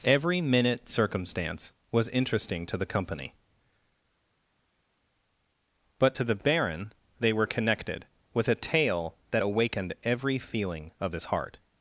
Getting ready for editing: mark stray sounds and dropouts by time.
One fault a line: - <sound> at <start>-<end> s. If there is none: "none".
none